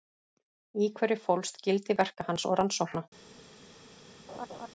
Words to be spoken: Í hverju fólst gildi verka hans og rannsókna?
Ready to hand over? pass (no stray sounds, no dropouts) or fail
fail